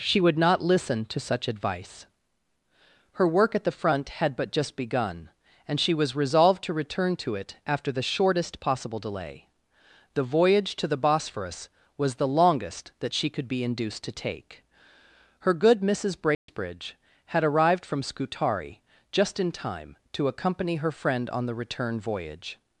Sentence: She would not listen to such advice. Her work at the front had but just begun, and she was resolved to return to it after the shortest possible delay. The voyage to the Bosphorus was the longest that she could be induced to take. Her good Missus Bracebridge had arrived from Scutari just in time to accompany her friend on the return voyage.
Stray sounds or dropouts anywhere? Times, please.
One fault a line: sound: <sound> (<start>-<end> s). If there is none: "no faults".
sound: dropout (16.3-16.5 s)